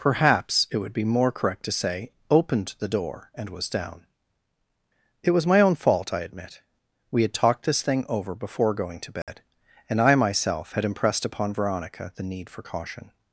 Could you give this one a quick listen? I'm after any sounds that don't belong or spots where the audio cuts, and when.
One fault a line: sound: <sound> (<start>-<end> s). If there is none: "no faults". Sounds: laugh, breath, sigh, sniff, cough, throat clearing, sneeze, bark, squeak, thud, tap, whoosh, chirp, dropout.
sound: dropout (9.2-9.3 s)